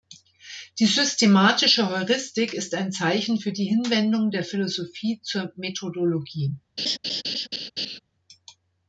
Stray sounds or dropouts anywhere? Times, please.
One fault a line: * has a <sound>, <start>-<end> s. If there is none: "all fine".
* has a laugh, 6.8-8.0 s